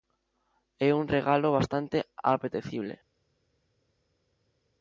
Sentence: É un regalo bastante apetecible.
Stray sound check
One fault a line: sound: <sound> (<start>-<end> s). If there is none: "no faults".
no faults